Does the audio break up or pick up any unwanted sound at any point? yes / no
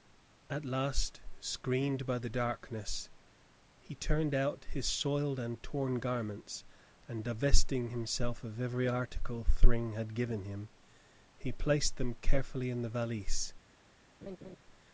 yes